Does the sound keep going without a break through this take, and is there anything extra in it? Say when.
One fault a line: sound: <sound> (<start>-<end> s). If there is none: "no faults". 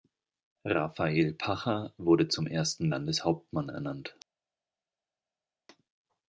no faults